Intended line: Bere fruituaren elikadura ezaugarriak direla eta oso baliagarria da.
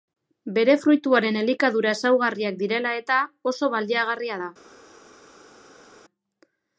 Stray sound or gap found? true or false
false